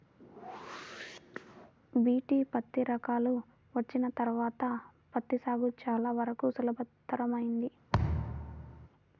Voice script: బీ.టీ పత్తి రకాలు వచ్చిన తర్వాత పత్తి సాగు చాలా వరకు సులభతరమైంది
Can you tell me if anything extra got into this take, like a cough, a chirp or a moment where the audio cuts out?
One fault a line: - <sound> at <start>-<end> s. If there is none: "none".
- whoosh at 0.2-1.7 s
- thud at 7.9-8.9 s